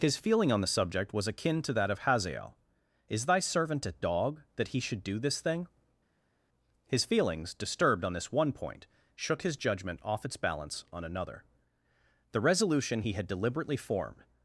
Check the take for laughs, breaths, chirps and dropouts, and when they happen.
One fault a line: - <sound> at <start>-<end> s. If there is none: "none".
none